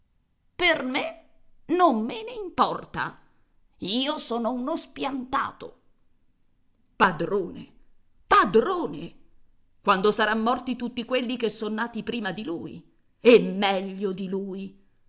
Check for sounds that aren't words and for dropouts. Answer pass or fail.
pass